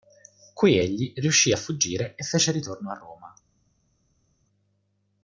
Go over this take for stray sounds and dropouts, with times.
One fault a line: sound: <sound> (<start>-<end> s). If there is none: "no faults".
no faults